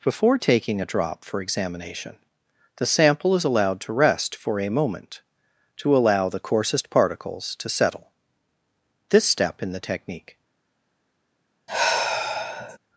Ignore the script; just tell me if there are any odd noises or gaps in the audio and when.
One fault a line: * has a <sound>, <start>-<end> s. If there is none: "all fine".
* has a sigh, 11.7-12.8 s